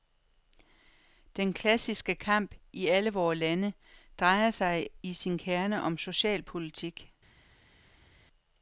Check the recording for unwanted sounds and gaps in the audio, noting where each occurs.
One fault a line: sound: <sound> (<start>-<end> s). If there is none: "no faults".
no faults